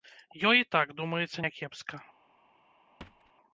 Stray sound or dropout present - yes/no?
yes